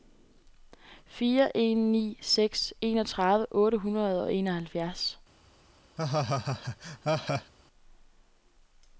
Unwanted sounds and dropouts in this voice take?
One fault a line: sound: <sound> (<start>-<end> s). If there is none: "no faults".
sound: laugh (6.0-7.5 s)